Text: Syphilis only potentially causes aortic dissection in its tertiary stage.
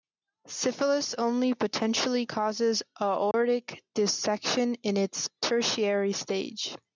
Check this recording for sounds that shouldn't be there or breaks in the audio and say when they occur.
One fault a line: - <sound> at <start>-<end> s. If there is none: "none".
- dropout at 3.3-3.3 s